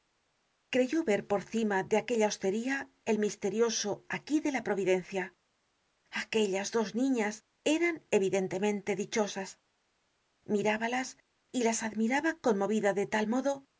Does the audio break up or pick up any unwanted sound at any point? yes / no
no